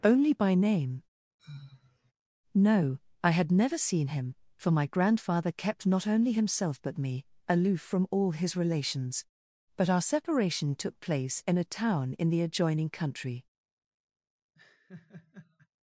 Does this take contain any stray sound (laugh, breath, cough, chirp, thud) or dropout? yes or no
yes